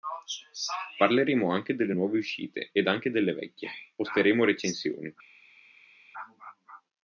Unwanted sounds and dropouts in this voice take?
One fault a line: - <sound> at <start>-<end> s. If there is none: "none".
none